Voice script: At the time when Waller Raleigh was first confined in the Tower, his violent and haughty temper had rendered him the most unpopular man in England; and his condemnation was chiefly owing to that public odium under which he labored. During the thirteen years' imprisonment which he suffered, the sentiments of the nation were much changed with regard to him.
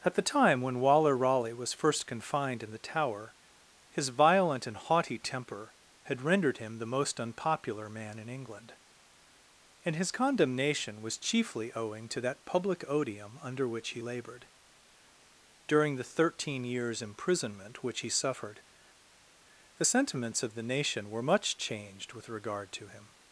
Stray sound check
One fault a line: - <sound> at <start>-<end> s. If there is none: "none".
none